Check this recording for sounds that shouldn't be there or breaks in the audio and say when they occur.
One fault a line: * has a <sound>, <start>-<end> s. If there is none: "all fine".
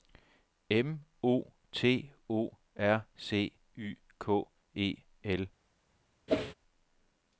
* has a whoosh, 6.3-6.5 s